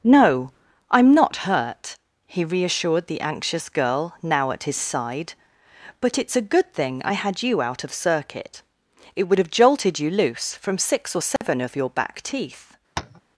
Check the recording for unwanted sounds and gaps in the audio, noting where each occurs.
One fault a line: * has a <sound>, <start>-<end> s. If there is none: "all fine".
* has a dropout, 11.4-11.4 s
* has a tap, 13.0-13.2 s